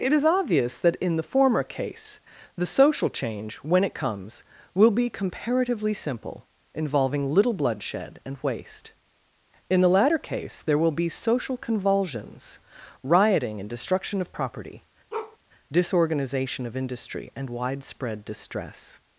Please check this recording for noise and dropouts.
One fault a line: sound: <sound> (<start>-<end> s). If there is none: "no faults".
sound: bark (15.1-15.4 s)